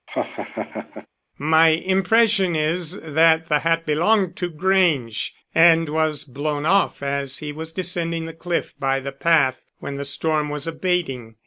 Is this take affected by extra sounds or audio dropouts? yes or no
yes